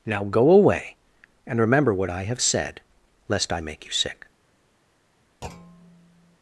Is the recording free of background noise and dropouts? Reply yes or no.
no